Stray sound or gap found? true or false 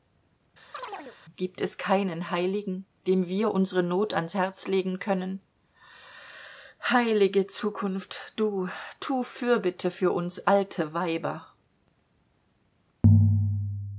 true